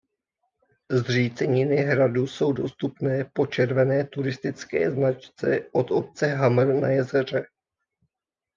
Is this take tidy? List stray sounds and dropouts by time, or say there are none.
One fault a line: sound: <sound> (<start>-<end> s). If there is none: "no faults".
no faults